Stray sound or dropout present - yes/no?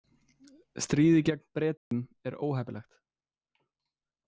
yes